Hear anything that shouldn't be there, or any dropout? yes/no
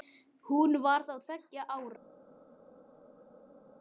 no